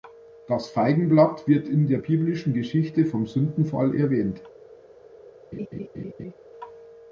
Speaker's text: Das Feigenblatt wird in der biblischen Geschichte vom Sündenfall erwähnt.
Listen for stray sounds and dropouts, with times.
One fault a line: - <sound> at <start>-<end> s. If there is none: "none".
- laugh at 5.5-6.3 s